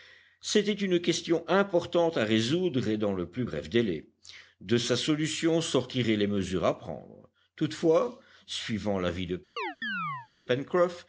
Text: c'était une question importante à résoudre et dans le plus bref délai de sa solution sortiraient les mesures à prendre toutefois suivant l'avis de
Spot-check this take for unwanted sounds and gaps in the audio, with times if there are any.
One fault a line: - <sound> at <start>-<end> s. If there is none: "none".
- chirp at 9.6-10.3 s